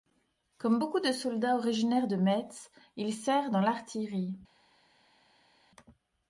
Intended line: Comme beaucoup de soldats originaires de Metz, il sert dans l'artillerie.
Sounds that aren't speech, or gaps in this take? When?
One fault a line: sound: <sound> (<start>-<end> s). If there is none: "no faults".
no faults